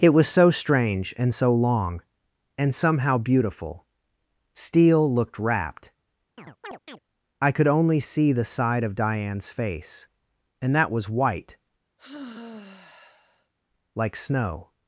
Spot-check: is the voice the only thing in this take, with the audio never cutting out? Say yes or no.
no